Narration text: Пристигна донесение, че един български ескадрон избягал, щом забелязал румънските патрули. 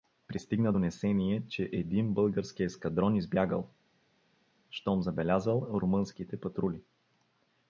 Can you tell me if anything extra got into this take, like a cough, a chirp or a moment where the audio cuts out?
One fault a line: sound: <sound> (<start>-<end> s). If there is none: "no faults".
no faults